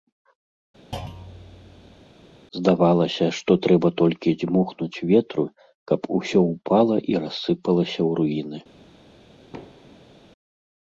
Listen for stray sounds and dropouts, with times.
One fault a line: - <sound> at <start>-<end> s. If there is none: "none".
- thud at 0.9-2.0 s
- thud at 9.5-10.1 s